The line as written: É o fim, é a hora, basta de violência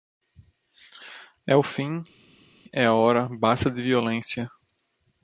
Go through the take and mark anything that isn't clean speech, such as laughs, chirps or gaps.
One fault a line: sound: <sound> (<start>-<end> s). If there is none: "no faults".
no faults